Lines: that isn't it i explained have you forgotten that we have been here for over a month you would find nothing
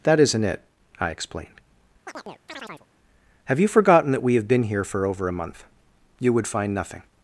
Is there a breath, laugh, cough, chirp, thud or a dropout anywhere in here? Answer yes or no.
yes